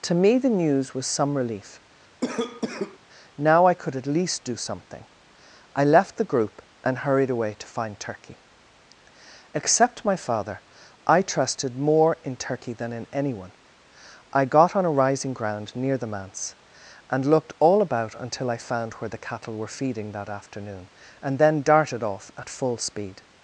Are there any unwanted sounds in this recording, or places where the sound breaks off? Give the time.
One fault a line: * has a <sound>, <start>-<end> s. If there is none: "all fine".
* has a cough, 2.2-3.0 s